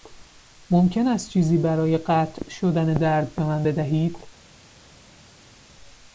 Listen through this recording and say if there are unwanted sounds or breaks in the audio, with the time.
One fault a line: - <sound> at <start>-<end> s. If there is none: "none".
none